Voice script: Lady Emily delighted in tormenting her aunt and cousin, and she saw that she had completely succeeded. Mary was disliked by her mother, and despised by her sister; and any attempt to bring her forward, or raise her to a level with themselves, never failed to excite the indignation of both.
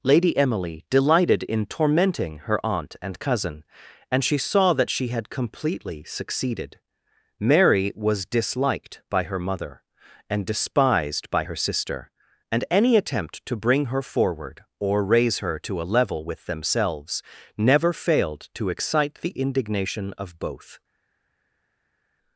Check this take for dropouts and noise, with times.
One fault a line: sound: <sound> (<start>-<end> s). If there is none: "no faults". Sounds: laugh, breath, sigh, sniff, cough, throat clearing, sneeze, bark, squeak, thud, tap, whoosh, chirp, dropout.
no faults